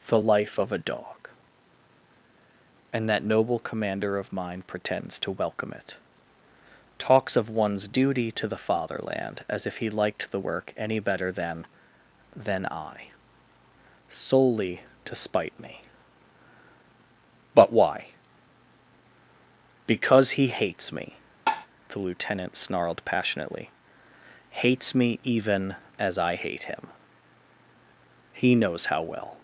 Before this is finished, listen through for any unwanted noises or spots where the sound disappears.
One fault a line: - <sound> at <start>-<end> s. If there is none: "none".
- tap at 21.5-21.7 s